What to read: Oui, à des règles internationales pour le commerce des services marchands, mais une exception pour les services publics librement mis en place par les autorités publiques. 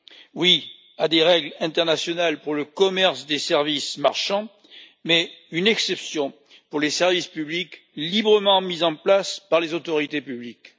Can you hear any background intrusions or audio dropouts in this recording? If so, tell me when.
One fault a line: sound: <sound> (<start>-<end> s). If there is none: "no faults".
no faults